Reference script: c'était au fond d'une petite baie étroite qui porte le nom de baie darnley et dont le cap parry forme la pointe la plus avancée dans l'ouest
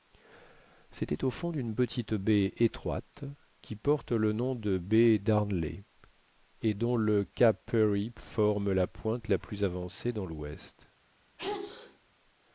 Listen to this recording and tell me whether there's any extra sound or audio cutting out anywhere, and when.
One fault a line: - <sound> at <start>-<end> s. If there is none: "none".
- sneeze at 11.4-12.0 s